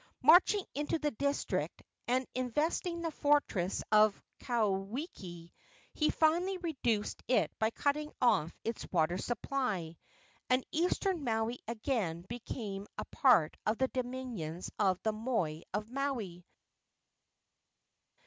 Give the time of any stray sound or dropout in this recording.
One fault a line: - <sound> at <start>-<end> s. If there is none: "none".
none